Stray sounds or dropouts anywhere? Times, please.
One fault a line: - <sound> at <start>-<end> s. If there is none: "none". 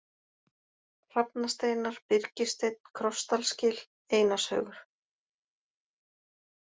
none